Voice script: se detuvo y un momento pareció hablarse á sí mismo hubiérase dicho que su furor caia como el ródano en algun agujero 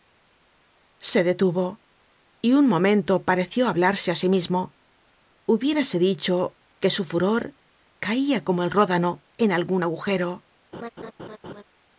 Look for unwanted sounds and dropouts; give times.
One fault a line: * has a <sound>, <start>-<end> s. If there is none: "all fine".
* has a laugh, 10.7-11.6 s